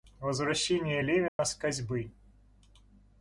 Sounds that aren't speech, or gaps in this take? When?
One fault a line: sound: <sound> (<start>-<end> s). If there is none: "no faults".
sound: dropout (1.3-1.4 s)